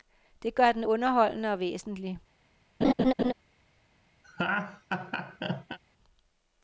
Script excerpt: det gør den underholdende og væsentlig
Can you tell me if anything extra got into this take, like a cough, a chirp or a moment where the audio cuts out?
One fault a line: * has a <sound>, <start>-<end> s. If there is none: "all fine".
* has a laugh, 2.8-3.3 s
* has a laugh, 4.2-5.8 s